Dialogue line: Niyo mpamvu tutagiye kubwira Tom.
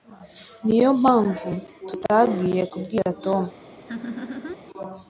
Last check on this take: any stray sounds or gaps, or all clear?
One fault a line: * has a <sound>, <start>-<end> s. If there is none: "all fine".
* has a laugh, 3.9-4.6 s